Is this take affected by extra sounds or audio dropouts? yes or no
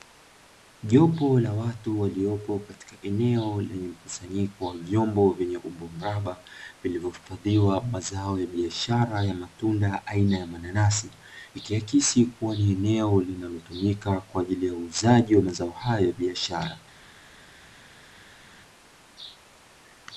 no